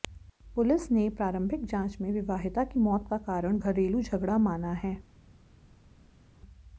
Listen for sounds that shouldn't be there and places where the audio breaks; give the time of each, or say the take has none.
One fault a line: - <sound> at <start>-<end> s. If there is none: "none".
none